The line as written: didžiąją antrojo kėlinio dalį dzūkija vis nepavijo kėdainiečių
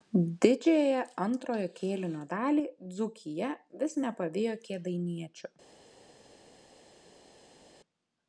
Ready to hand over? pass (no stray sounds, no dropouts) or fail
pass